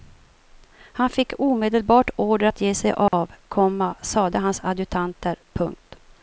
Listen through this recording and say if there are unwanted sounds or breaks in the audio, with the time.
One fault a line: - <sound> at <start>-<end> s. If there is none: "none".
- dropout at 3.1-3.1 s